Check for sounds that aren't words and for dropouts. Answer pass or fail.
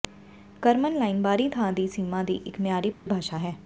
fail